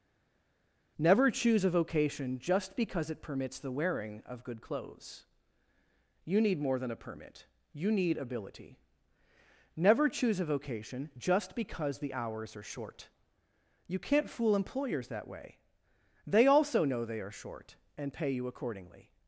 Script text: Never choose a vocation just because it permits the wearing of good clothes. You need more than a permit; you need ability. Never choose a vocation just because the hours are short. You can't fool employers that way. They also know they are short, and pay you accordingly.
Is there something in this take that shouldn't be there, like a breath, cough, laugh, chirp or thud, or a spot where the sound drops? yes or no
no